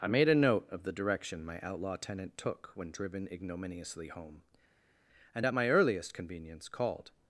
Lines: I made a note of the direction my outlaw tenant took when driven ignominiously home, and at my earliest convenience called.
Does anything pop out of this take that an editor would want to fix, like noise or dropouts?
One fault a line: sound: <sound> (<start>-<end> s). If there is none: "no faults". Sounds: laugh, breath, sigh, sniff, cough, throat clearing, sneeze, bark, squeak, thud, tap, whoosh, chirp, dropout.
no faults